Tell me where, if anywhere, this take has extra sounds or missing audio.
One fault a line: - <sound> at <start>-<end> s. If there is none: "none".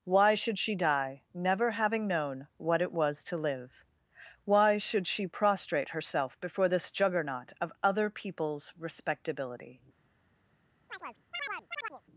- chirp at 10.9-12.0 s